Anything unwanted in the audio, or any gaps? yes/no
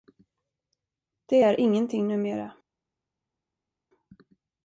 no